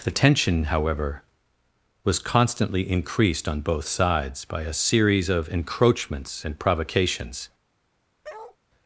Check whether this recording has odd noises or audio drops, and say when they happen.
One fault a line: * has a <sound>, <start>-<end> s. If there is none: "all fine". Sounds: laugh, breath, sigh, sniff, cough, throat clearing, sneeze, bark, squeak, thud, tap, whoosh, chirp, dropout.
* has a bark, 8.2-8.6 s